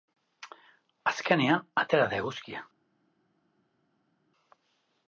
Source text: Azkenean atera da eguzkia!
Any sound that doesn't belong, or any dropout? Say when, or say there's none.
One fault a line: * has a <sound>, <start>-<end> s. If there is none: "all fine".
all fine